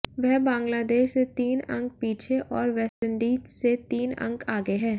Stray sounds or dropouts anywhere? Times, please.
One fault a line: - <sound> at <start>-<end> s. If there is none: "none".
- dropout at 2.9-3.0 s